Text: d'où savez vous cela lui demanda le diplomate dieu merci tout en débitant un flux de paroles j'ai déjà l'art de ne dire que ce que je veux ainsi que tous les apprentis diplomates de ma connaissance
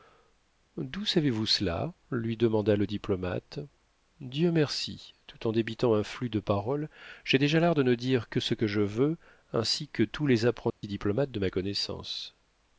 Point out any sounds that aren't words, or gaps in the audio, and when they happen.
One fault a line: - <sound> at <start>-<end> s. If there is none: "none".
- dropout at 10.7-10.8 s